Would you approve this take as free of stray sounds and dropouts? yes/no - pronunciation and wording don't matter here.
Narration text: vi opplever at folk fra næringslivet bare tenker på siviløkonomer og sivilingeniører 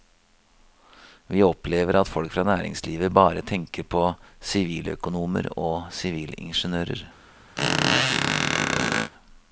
no